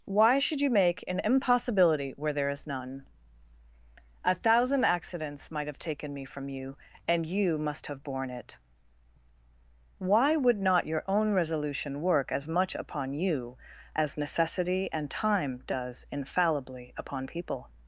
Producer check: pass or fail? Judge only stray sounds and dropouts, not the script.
pass